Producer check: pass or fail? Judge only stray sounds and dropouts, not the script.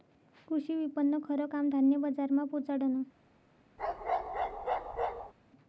fail